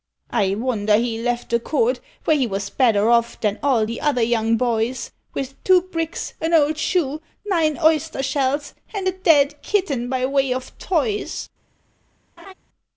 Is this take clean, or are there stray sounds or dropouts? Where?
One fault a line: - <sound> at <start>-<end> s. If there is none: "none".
- laugh at 12.4-12.5 s